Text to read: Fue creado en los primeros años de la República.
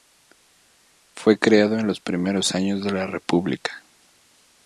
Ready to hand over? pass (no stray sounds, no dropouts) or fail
pass